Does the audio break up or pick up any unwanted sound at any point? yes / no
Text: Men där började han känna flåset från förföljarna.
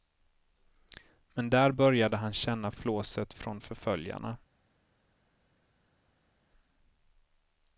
no